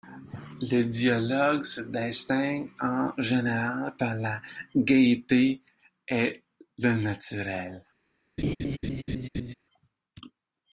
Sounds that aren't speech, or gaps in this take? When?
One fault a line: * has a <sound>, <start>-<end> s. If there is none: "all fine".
* has a laugh, 8.4-9.5 s